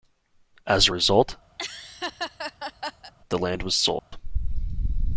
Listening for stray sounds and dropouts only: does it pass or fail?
fail